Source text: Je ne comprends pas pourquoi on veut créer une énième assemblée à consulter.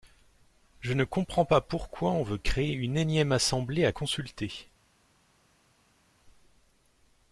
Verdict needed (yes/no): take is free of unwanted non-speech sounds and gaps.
yes